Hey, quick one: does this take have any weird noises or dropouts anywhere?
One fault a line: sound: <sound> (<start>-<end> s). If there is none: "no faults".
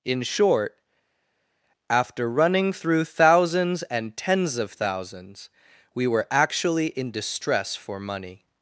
no faults